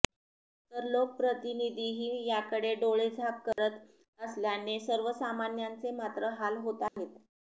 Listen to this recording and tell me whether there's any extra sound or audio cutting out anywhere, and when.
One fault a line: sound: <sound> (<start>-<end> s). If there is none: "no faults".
sound: dropout (3.5-3.6 s)
sound: dropout (6.9-7.0 s)